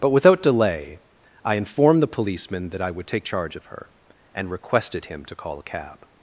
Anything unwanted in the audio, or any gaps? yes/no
no